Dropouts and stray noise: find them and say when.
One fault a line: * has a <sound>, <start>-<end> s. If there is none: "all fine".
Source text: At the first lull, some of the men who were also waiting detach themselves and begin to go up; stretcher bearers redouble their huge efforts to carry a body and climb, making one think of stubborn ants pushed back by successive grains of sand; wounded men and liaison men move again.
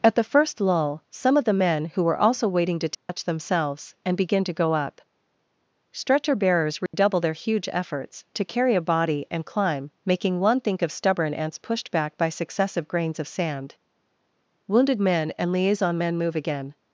* has a dropout, 2.9-3.1 s
* has a dropout, 6.9-6.9 s